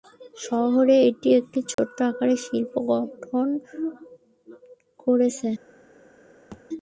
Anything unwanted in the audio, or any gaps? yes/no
yes